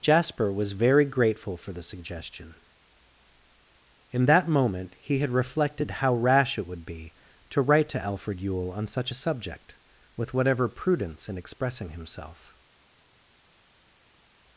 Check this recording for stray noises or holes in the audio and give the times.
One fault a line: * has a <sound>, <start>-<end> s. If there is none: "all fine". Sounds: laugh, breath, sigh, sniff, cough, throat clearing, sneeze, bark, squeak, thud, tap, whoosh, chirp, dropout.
all fine